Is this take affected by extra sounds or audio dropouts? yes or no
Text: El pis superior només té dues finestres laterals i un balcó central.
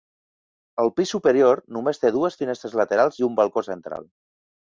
no